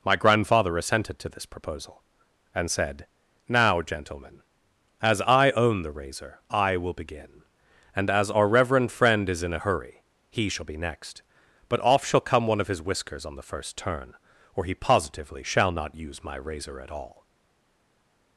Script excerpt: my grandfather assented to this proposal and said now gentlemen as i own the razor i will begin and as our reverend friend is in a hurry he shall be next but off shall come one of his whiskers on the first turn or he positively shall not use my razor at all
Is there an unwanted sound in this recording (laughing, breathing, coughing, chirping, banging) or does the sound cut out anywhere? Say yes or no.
no